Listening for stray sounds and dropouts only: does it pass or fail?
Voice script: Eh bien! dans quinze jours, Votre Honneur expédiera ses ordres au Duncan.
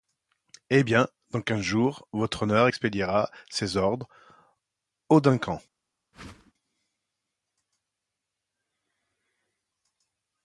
fail